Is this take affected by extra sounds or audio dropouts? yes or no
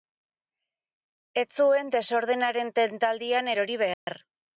yes